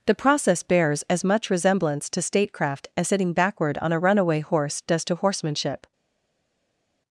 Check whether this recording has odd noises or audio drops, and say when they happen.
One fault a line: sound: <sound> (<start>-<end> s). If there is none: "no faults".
no faults